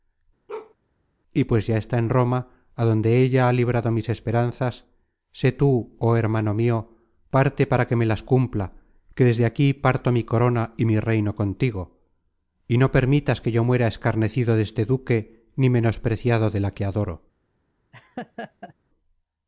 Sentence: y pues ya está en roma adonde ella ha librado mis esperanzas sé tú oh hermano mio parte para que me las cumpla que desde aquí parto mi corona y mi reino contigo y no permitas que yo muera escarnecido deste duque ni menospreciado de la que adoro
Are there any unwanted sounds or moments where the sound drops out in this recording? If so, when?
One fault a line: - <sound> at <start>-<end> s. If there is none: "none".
- bark at 0.5-0.7 s
- laugh at 17.9-18.7 s